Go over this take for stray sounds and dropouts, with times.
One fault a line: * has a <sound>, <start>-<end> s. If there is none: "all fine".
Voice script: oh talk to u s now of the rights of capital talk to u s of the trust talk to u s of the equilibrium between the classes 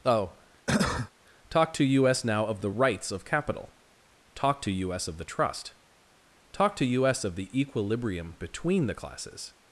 * has a cough, 0.7-1.1 s